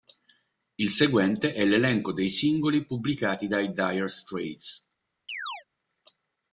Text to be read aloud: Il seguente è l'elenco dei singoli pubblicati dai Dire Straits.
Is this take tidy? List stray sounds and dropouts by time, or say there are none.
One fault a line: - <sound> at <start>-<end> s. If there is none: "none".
- chirp at 5.3-5.6 s